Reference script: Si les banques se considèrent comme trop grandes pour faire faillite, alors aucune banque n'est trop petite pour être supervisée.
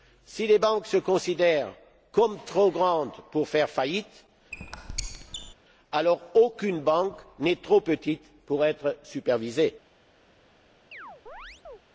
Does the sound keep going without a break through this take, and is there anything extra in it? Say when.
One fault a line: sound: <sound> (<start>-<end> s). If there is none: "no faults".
sound: squeak (4.5-5.5 s)
sound: chirp (10.9-11.8 s)